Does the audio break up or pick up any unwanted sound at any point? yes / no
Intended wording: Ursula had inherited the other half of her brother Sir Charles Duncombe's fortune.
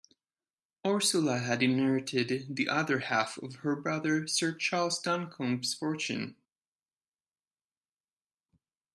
no